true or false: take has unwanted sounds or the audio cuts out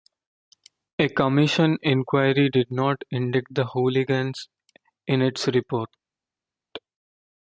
false